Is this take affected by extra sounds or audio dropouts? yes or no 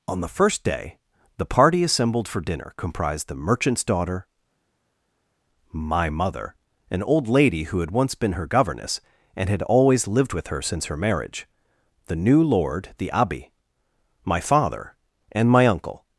no